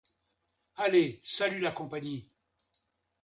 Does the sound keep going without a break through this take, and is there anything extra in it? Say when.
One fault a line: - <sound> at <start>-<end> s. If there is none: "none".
none